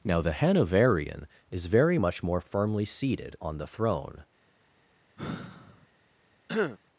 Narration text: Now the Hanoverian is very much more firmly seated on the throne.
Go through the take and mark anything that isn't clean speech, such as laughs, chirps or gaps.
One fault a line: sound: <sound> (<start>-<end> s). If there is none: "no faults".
sound: sigh (5.2-5.9 s)
sound: throat clearing (6.5-6.8 s)